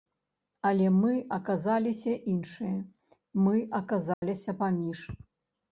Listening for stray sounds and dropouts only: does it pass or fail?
fail